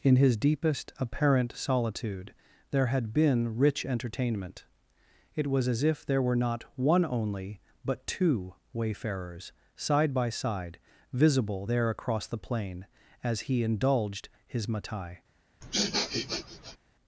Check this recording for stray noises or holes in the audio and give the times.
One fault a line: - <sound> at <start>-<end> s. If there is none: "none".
- sniff at 15.6-16.8 s